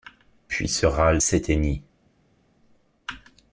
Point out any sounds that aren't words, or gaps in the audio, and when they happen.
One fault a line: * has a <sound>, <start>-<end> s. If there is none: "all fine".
all fine